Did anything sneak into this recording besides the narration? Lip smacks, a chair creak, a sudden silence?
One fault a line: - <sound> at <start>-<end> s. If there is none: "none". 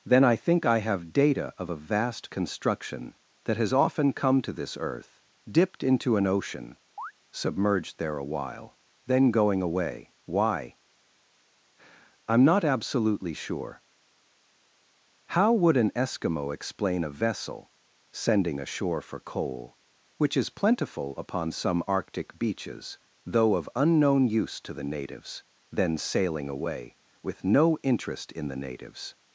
- chirp at 7.0-7.1 s